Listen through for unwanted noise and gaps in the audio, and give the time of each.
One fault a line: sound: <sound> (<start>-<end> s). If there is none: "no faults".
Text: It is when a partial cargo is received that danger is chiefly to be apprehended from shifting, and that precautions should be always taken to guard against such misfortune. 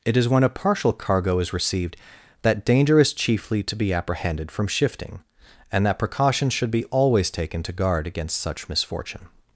no faults